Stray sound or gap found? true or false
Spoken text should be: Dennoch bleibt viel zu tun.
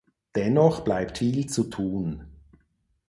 false